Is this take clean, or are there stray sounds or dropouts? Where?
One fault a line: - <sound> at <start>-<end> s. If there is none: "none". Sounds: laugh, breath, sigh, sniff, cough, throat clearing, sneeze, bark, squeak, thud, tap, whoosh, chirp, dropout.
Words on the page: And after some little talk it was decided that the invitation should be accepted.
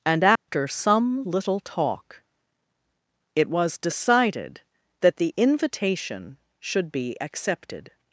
- dropout at 0.4-0.5 s